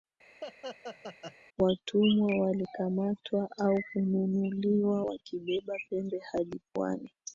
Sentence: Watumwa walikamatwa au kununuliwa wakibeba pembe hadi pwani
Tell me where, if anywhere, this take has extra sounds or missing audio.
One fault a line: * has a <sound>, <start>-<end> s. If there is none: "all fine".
* has a laugh, 0.4-1.4 s